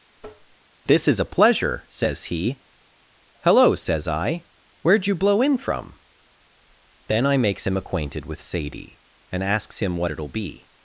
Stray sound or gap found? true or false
true